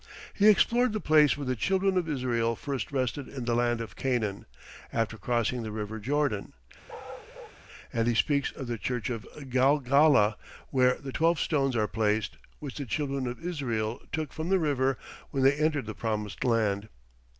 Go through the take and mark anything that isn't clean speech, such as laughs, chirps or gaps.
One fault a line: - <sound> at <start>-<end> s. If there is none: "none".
- bark at 6.9-7.6 s